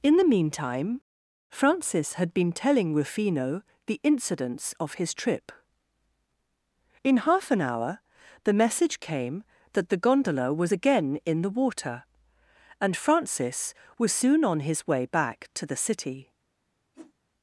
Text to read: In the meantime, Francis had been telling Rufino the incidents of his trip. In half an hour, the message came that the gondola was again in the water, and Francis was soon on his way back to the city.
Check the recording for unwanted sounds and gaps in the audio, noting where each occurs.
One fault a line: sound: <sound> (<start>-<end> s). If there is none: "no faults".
sound: whoosh (16.9-17.1 s)